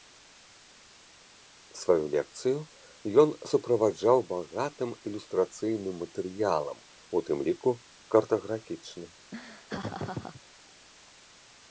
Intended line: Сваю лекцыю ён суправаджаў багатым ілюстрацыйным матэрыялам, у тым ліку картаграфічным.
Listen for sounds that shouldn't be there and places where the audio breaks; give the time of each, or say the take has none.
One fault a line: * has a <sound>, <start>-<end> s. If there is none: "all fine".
* has a laugh, 9.3-10.4 s